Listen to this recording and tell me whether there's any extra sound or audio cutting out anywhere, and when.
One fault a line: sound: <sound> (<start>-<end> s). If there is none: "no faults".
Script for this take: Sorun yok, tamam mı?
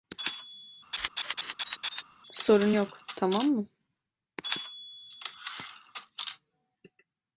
sound: laugh (0.9-2.0 s)